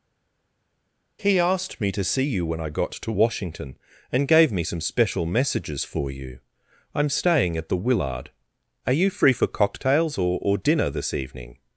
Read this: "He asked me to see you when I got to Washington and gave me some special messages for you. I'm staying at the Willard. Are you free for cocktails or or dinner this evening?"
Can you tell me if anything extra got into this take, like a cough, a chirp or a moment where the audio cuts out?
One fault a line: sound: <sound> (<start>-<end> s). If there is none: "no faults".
no faults